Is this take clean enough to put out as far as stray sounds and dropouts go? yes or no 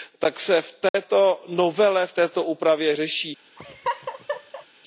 no